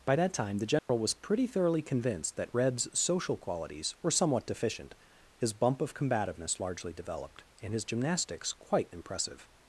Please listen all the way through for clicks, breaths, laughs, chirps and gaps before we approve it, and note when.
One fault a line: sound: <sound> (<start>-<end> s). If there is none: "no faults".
sound: dropout (0.8-0.9 s)